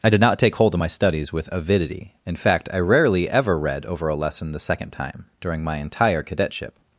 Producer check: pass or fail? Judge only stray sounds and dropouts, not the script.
pass